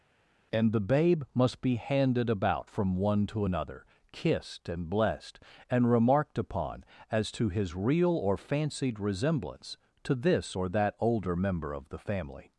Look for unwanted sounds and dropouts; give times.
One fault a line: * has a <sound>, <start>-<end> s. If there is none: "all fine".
all fine